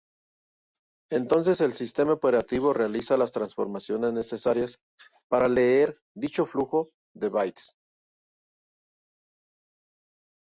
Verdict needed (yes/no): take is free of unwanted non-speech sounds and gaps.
yes